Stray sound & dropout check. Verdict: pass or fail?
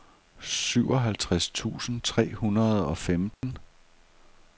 fail